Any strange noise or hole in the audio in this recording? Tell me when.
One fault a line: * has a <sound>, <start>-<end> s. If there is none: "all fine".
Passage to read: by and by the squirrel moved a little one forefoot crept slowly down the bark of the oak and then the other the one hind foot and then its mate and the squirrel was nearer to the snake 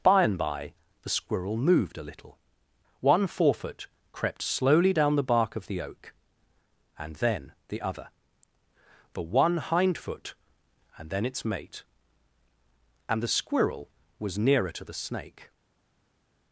all fine